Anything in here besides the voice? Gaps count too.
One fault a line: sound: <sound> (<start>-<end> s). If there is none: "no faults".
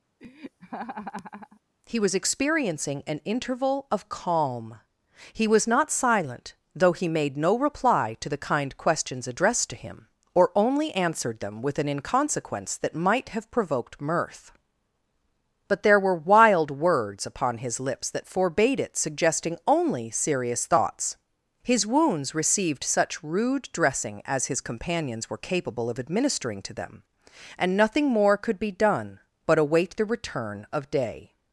sound: laugh (0.2-1.6 s)